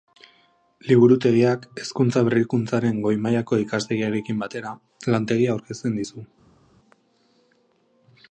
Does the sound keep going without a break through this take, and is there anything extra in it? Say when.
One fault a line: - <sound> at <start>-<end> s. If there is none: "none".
none